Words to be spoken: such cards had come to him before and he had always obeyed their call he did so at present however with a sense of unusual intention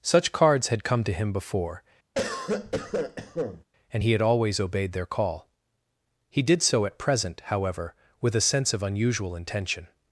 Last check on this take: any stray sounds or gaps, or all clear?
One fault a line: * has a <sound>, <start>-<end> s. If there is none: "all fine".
* has a cough, 2.1-3.6 s